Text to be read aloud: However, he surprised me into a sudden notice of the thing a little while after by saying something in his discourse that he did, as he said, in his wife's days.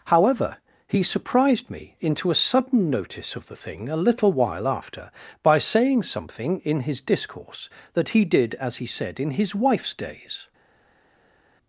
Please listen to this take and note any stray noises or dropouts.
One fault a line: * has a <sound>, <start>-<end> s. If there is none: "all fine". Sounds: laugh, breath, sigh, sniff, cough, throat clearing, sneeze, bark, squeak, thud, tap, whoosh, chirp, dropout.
all fine